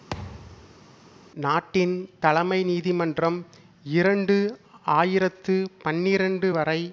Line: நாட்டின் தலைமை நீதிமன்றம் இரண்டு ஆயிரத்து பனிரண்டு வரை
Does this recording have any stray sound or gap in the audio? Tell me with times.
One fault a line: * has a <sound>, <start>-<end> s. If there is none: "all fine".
* has a thud, 0.1-0.9 s